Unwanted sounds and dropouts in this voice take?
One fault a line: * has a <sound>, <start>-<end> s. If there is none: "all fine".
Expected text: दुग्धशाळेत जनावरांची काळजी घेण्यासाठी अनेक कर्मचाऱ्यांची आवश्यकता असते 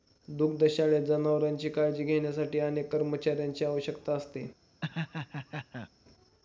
* has a laugh, 4.8-5.9 s